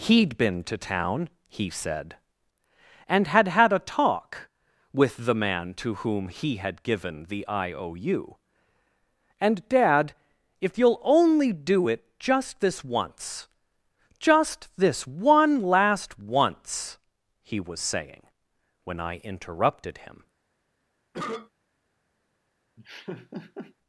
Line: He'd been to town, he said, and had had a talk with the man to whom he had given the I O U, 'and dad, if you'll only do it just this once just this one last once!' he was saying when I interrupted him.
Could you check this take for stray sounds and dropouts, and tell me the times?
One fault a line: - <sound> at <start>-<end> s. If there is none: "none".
- cough at 21.1-21.5 s
- laugh at 22.8-23.7 s